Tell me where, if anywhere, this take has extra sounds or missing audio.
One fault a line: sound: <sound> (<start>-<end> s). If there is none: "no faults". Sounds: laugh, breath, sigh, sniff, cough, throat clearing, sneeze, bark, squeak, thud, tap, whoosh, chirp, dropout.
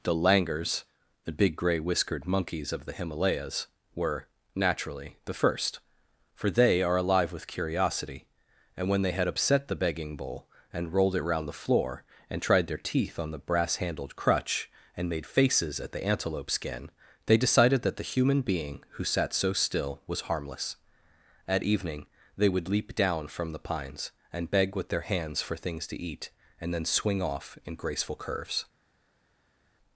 no faults